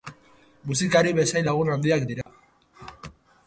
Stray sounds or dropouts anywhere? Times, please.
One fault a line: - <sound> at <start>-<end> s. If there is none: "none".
- dropout at 2.2-2.3 s